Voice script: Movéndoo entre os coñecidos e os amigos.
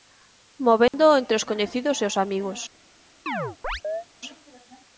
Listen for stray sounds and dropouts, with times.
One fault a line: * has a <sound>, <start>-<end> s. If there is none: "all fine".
* has a dropout, 0.9-0.9 s
* has a chirp, 3.3-4.1 s